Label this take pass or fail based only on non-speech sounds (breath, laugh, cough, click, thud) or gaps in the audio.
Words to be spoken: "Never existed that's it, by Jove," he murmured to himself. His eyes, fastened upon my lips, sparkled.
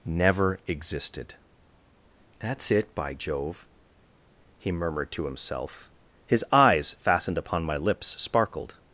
pass